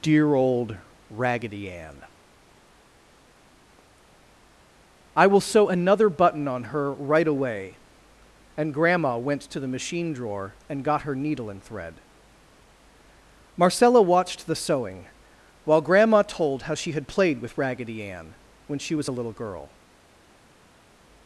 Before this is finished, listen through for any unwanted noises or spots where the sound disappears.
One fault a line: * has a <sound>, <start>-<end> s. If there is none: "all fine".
all fine